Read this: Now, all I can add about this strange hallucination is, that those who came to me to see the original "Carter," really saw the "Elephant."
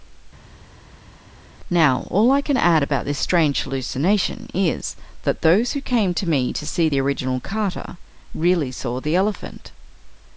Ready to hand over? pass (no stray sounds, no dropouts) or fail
pass